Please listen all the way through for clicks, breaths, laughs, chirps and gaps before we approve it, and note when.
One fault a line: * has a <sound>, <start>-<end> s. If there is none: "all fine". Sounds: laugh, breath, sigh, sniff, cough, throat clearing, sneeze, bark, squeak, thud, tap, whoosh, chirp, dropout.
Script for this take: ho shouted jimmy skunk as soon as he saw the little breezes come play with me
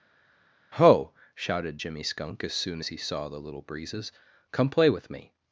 all fine